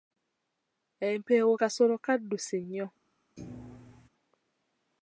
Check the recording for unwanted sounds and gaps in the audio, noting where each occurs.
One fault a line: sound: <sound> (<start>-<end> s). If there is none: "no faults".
sound: thud (3.4-4.1 s)